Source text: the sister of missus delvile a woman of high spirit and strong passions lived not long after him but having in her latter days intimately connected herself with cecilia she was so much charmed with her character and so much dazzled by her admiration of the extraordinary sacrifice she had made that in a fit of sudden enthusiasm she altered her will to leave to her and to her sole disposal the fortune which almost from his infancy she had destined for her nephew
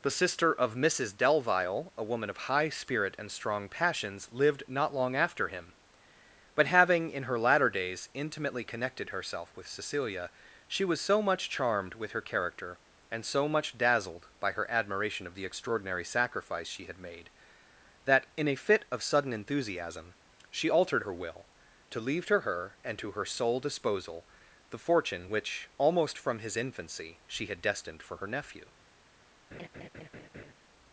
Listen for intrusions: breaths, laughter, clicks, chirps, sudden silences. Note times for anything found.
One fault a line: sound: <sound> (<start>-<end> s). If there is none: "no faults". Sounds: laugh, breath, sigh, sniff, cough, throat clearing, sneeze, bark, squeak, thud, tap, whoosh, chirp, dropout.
sound: laugh (29.5-30.5 s)